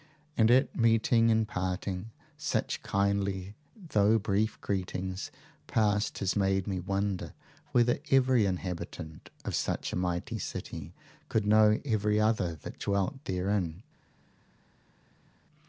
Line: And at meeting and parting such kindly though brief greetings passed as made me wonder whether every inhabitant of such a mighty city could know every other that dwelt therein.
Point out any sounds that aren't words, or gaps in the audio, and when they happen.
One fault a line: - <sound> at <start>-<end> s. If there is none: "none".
none